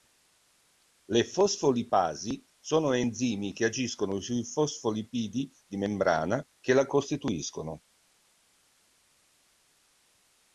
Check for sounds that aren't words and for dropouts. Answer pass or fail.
pass